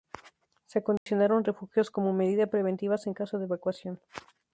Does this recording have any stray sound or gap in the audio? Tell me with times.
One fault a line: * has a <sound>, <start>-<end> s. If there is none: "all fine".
* has a dropout, 1.0-1.1 s